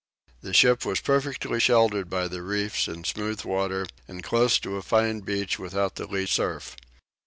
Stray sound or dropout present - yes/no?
no